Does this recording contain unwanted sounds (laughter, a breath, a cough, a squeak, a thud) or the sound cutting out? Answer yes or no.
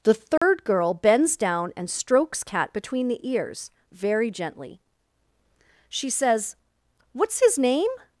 yes